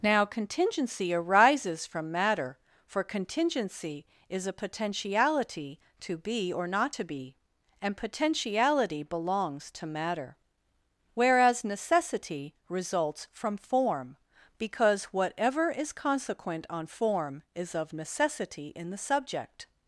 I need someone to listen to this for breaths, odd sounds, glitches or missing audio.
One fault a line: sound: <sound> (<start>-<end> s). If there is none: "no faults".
no faults